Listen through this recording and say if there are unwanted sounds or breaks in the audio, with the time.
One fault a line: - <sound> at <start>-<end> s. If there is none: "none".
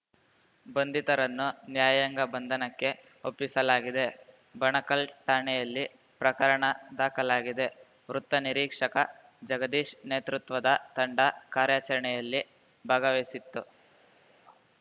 none